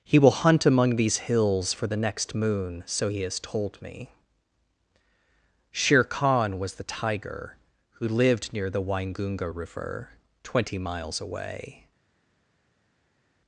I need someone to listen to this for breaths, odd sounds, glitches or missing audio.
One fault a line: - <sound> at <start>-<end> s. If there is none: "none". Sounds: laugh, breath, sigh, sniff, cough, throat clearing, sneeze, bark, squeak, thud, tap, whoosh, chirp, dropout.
none